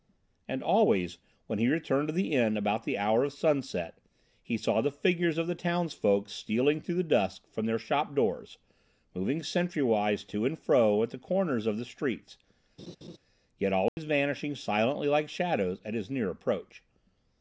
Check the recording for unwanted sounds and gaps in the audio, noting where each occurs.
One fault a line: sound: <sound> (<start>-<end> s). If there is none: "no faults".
sound: laugh (12.8-13.2 s)
sound: dropout (13.9-14.0 s)